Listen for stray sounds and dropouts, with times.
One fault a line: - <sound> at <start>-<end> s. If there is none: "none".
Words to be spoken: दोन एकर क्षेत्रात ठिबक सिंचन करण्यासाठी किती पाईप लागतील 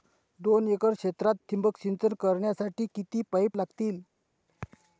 none